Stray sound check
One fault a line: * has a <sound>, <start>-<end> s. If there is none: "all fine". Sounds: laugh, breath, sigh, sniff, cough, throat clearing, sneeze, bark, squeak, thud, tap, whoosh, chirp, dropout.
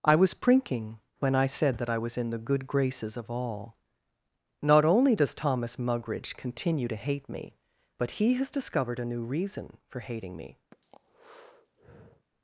* has a breath, 10.7-12.3 s